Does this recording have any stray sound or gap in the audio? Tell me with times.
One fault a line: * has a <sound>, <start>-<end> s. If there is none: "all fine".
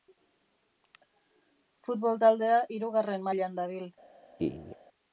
* has a laugh, 4.4-4.8 s